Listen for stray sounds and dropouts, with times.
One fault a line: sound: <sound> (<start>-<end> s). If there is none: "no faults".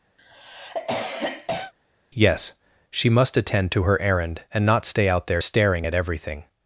sound: cough (0.2-1.7 s)